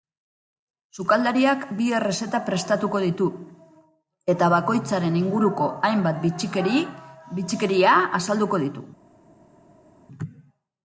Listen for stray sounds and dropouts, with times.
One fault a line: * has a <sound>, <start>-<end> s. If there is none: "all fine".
all fine